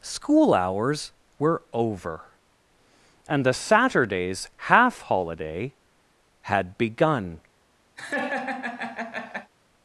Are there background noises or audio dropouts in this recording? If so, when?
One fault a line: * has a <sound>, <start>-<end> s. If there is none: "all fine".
* has a laugh, 8.0-9.5 s